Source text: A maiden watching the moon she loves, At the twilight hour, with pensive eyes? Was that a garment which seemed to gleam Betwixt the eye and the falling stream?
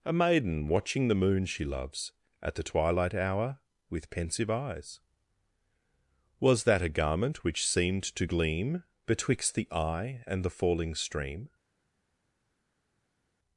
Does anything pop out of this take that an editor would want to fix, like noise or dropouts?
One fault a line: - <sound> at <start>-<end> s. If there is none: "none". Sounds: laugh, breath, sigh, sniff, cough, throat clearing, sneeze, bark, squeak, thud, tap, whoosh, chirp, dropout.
none